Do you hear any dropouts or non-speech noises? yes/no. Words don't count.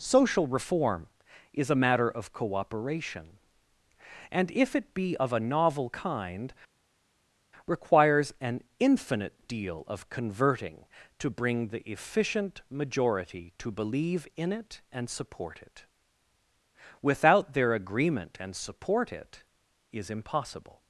no